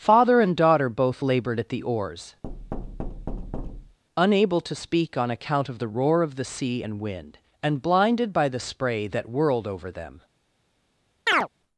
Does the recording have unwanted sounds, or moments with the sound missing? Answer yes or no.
yes